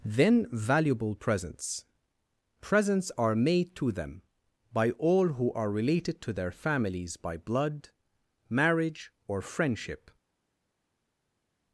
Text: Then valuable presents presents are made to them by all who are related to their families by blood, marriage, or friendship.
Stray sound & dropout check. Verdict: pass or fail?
pass